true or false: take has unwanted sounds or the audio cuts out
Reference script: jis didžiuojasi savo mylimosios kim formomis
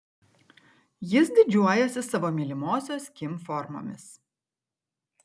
false